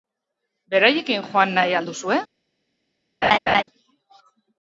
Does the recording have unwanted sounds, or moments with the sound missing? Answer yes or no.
yes